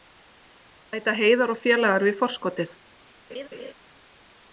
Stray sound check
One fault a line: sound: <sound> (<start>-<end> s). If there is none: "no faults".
sound: laugh (3.3-3.7 s)